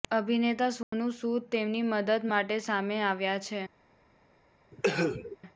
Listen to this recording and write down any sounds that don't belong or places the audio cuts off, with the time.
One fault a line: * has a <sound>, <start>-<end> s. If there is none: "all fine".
* has a dropout, 0.8-0.9 s
* has a cough, 4.7-5.4 s